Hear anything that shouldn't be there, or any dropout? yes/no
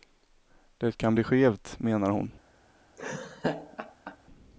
yes